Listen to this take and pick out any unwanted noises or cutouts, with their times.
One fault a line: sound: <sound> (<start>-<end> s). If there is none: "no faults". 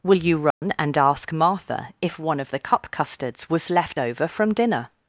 sound: dropout (0.5-0.6 s)